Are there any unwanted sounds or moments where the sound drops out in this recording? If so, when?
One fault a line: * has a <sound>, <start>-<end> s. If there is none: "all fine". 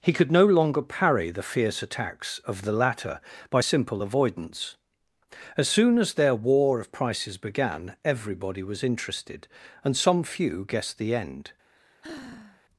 * has a sigh, 11.7-12.6 s